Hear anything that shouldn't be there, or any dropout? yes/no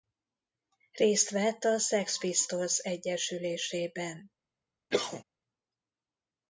yes